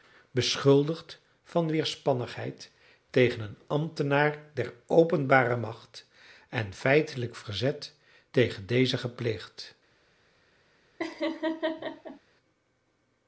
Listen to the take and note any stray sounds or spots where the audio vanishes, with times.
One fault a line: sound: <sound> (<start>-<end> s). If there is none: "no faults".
sound: laugh (11.0-12.2 s)